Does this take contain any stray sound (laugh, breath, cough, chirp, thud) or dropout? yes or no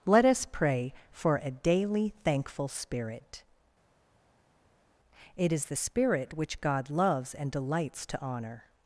no